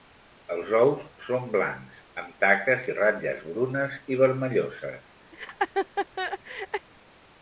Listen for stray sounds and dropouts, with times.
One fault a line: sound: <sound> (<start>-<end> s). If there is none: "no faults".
sound: laugh (5.3-6.9 s)